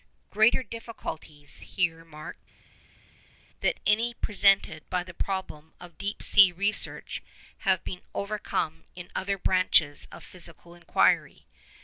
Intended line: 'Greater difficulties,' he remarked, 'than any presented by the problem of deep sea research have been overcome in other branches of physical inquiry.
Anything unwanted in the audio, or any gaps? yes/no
no